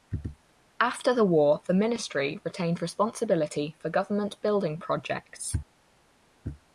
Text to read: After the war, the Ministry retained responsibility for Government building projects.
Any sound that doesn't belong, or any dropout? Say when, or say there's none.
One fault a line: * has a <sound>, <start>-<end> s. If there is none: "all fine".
all fine